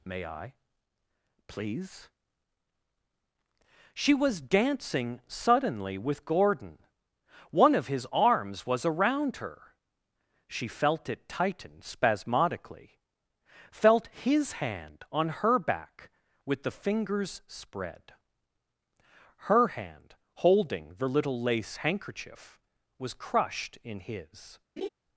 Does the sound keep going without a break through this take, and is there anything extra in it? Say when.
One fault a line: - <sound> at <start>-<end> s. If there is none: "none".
- laugh at 24.8-24.9 s